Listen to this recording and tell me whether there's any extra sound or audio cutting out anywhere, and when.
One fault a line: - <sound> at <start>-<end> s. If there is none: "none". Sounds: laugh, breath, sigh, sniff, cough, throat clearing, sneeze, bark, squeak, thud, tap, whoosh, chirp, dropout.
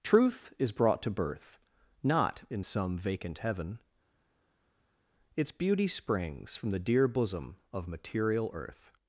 none